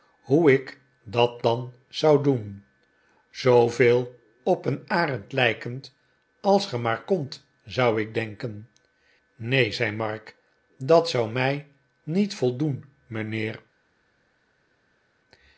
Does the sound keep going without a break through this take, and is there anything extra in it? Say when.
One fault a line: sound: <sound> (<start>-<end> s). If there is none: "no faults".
no faults